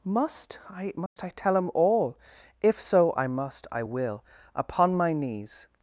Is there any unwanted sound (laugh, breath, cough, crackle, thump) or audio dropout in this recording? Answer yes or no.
yes